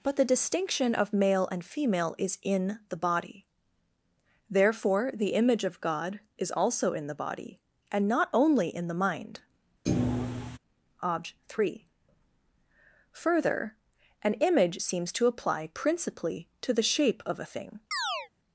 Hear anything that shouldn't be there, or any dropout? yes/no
yes